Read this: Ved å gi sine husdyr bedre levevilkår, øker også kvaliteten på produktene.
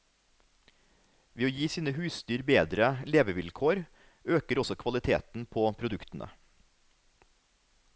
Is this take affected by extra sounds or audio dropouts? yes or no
no